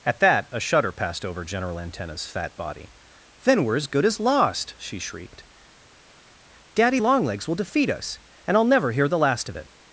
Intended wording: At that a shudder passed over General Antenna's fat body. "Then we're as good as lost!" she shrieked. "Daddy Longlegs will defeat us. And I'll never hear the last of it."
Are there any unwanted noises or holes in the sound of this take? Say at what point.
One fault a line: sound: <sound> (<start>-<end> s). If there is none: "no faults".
no faults